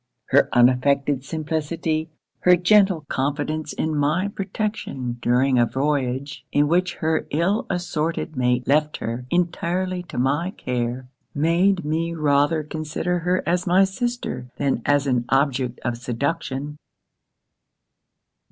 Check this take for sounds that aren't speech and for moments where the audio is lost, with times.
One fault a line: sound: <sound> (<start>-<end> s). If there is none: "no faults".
no faults